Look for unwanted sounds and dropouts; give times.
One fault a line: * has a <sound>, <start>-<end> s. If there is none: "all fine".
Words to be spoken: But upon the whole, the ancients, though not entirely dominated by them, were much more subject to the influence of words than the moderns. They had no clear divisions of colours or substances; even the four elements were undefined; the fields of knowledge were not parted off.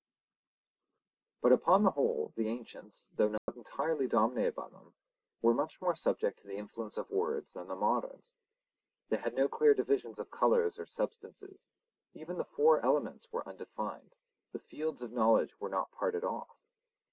* has a dropout, 3.4-3.5 s